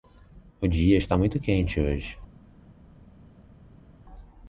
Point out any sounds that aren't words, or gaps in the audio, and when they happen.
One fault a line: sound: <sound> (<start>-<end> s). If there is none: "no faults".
no faults